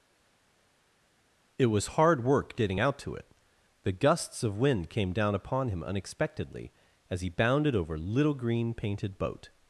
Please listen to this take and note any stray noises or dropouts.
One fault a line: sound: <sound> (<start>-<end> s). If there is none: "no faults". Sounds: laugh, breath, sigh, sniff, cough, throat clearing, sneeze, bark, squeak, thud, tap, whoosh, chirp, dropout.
no faults